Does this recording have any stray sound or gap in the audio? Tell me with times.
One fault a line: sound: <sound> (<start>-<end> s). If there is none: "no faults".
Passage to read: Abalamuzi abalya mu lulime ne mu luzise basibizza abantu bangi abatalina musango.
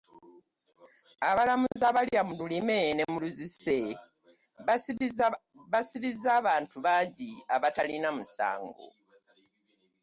sound: dropout (1.7-1.8 s)